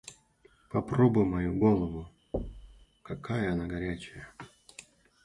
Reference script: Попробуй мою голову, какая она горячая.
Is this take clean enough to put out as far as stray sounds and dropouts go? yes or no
no